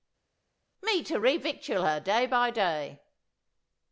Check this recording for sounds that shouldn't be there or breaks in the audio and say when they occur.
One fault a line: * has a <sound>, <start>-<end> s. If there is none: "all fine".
all fine